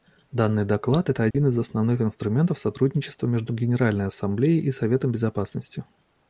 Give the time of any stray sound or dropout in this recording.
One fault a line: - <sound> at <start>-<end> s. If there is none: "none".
- dropout at 1.3-1.3 s